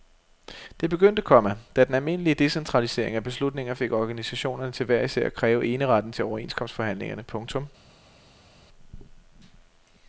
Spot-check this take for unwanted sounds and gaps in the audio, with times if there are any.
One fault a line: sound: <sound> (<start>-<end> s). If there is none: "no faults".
no faults